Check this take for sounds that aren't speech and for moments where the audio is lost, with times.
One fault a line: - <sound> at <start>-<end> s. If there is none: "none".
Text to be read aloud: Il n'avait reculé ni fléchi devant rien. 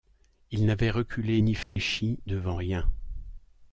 - dropout at 1.6-1.8 s